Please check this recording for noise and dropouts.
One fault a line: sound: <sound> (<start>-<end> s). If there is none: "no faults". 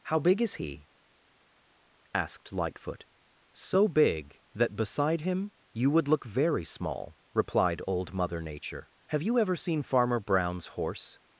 no faults